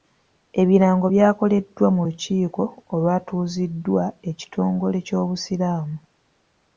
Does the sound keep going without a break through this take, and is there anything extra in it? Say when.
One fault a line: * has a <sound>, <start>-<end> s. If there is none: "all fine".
all fine